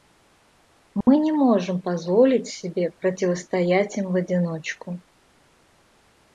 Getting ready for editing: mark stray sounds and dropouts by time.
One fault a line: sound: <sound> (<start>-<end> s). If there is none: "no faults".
sound: dropout (1.0-1.1 s)